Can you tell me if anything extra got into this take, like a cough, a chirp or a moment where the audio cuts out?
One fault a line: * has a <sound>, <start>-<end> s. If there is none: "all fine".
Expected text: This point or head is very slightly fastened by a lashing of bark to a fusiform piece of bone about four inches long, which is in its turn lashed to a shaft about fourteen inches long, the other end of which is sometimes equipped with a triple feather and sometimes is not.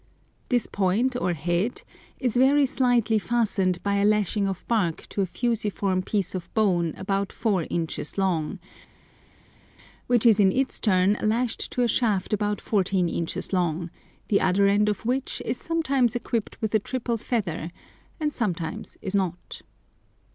all fine